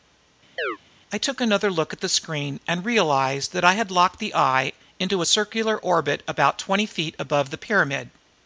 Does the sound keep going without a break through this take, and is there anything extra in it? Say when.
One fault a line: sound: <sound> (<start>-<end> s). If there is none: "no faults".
sound: chirp (0.6-0.8 s)